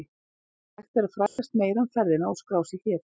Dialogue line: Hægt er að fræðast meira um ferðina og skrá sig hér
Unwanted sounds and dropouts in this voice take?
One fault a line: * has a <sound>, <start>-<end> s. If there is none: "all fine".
* has a dropout, 1.3-1.4 s